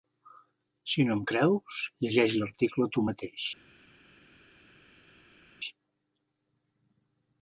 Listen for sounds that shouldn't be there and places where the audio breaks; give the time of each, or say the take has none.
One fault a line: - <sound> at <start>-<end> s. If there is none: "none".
none